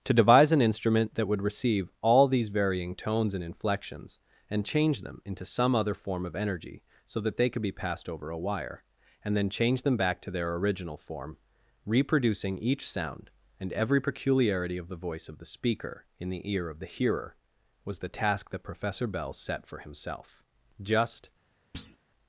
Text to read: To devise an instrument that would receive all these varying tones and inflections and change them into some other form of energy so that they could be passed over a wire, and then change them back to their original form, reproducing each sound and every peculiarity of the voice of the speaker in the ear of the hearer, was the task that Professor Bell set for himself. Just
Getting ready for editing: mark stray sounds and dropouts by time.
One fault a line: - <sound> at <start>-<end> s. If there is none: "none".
- thud at 21.7-22.0 s